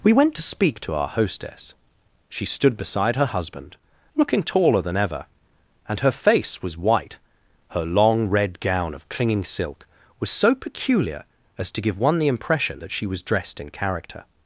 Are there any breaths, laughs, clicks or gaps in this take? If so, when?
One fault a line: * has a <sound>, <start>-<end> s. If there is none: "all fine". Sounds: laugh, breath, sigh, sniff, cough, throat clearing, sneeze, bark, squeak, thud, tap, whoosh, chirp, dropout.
all fine